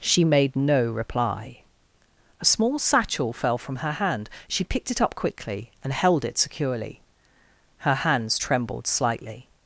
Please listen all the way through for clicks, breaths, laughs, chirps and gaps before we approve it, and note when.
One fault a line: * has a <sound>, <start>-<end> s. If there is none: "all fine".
all fine